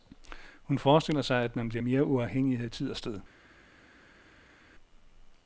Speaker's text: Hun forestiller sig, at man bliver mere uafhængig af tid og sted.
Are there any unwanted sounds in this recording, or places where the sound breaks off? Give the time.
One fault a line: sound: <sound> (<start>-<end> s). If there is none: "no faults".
no faults